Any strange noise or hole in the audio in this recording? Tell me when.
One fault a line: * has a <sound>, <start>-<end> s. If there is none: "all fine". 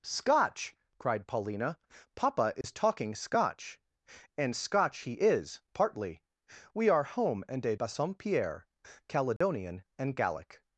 * has a dropout, 2.6-2.6 s
* has a dropout, 9.4-9.4 s